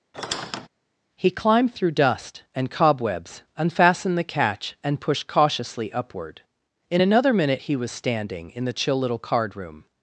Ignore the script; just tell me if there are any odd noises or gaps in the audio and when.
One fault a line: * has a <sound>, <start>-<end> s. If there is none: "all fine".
* has a squeak, 0.1-0.7 s